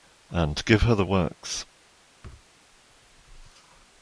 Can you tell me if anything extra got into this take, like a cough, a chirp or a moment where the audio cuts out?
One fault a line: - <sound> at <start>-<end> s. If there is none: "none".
- thud at 2.2-2.5 s